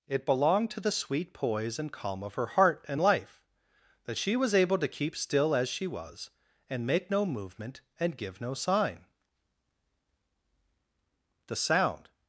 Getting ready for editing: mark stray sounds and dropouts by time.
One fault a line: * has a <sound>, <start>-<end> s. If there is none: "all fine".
all fine